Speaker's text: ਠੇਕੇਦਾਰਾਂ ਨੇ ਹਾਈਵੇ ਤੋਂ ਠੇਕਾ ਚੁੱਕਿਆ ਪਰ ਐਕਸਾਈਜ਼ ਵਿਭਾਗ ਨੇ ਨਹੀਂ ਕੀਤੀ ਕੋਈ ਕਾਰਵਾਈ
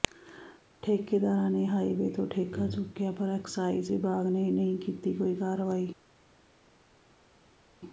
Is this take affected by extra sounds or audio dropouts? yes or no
no